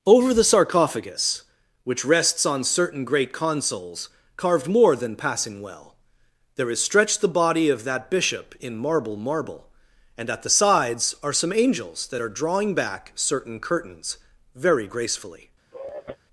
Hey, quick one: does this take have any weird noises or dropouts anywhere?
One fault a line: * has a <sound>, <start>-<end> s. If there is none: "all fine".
* has a sigh, 15.7-16.2 s